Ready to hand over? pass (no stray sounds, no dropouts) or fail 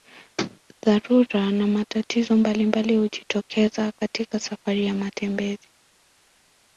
pass